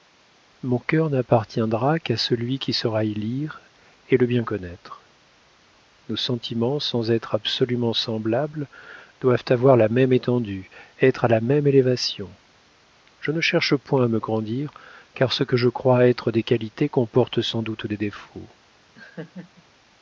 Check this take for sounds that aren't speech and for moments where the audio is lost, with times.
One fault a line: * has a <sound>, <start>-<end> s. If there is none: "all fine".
* has a laugh, 19.0-19.6 s